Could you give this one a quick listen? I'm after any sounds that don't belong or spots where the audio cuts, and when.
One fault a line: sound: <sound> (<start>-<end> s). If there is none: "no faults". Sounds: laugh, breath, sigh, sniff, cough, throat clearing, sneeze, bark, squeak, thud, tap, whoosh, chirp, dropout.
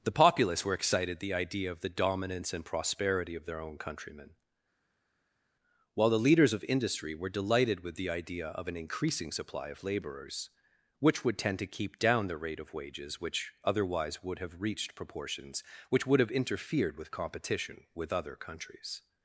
no faults